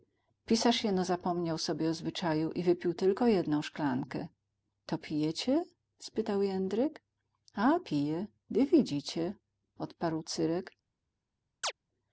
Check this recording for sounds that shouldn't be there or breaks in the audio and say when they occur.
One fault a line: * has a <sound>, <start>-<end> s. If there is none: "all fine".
* has a chirp, 11.6-11.7 s